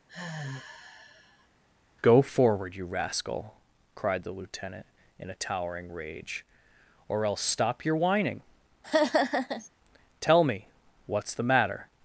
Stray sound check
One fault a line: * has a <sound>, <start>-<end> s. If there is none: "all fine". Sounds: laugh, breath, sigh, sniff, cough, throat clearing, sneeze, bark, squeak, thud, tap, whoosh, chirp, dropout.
* has a sigh, 0.1-1.5 s
* has a laugh, 8.8-9.7 s